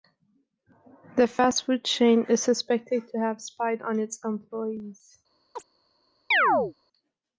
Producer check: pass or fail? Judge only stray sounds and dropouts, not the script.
fail